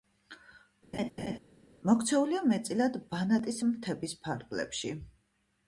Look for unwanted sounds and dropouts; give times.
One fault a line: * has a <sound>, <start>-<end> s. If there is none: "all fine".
* has a laugh, 0.9-1.4 s